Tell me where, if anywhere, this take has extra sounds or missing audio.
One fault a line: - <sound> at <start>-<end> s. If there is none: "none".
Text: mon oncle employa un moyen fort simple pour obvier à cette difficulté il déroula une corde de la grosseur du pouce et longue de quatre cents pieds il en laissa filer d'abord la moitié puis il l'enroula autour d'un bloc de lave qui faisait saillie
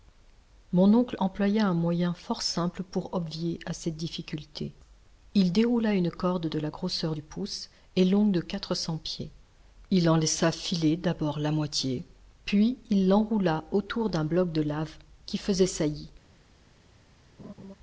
- laugh at 17.4-17.7 s